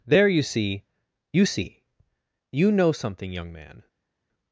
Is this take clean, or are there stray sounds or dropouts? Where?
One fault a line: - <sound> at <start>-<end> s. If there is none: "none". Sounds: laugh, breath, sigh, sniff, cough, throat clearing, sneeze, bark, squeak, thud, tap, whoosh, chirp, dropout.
none